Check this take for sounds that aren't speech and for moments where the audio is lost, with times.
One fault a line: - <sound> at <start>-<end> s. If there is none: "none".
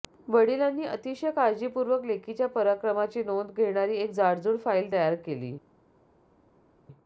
none